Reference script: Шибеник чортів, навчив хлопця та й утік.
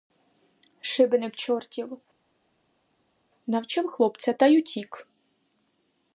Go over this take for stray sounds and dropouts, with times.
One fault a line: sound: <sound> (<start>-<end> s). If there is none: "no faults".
no faults